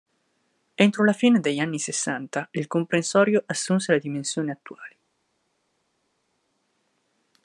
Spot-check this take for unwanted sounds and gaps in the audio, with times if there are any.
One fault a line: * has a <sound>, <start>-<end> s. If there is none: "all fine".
all fine